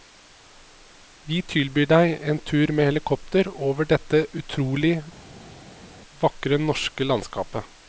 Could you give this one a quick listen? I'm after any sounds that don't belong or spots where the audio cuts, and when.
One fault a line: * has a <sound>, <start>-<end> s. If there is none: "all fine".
all fine